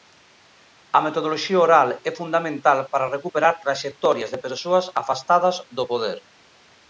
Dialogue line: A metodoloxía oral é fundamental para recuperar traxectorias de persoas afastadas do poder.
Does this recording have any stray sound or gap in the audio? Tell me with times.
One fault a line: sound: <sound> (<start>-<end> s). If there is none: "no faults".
no faults